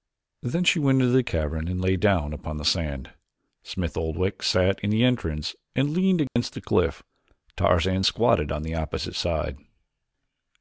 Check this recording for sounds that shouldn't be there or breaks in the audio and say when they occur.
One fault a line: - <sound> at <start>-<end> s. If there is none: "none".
- dropout at 6.3-6.4 s